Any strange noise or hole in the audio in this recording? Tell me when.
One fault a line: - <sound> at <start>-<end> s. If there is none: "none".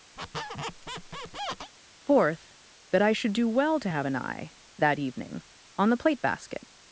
- squeak at 0.2-1.7 s